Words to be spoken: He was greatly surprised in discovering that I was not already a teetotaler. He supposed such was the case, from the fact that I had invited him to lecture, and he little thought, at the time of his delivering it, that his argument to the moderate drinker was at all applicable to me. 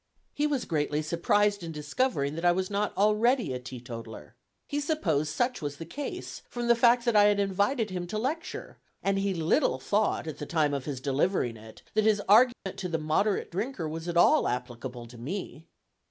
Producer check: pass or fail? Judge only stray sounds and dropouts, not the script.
fail